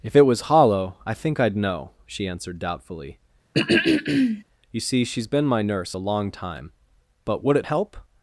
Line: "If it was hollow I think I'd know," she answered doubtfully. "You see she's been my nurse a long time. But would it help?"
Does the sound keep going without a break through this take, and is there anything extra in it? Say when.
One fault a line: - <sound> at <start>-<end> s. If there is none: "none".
- throat clearing at 3.5-4.4 s